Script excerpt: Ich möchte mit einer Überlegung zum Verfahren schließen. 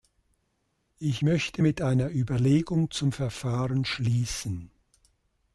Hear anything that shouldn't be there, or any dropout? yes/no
no